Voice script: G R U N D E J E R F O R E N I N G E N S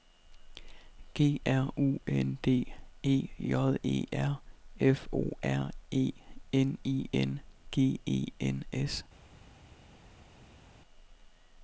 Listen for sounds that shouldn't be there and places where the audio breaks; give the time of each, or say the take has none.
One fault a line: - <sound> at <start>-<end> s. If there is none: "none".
none